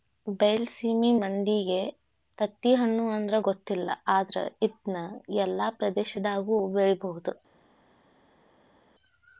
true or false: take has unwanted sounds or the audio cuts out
false